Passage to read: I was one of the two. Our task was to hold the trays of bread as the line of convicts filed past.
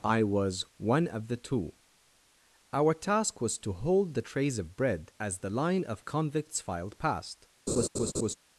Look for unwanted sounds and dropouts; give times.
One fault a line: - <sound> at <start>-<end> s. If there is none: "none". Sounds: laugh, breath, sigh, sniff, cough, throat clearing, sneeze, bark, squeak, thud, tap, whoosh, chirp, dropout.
- laugh at 7.7-8.3 s